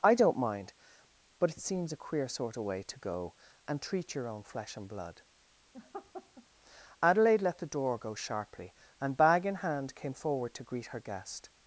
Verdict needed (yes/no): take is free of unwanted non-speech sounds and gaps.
no